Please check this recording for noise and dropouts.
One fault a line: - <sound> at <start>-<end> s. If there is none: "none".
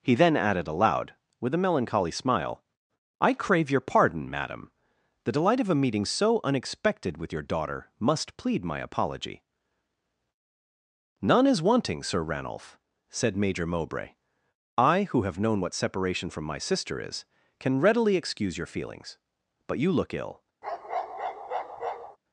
- bark at 20.6-22.2 s